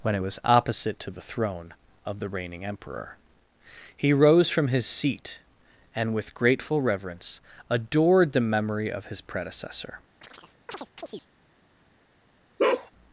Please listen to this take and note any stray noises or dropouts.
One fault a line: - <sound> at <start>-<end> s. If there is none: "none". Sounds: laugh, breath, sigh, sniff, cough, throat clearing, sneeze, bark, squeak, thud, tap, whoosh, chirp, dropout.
- chirp at 10.2-11.3 s
- bark at 12.6-12.9 s